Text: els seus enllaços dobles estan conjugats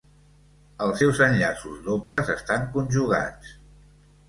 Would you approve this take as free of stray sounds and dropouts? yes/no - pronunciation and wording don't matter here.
no